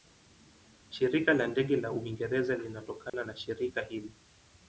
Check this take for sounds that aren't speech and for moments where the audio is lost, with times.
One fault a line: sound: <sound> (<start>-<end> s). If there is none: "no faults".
sound: dropout (3.1-3.1 s)